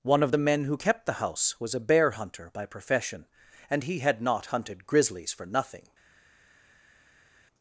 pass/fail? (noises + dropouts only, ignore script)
pass